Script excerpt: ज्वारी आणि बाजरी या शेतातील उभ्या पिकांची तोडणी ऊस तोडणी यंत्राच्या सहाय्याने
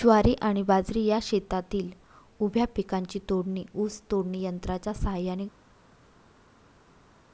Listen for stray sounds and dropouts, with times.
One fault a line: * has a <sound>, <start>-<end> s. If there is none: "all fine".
all fine